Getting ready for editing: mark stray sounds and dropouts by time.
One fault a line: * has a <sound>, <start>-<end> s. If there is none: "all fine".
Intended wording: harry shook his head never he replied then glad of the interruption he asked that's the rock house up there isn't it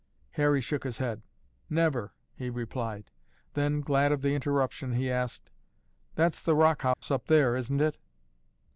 * has a dropout, 6.9-7.0 s